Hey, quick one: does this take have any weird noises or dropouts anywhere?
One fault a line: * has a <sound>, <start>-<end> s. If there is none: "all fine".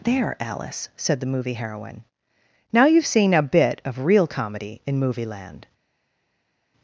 all fine